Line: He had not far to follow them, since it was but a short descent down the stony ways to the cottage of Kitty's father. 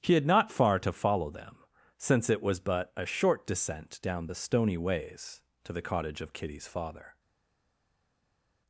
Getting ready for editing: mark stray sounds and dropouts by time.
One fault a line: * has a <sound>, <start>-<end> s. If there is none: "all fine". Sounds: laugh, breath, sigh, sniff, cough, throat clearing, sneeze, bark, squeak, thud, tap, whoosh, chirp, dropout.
all fine